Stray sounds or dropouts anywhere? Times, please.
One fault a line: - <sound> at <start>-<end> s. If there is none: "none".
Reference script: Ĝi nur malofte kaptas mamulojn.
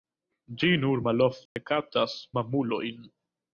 - dropout at 1.5-1.6 s